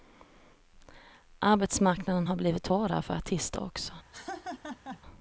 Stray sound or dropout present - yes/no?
yes